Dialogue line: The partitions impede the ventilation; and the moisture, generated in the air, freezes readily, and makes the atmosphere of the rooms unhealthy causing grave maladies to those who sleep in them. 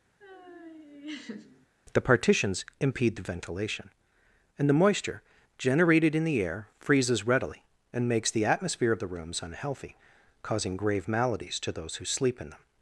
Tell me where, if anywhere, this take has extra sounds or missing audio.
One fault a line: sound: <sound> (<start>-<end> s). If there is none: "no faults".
sound: laugh (0.2-1.7 s)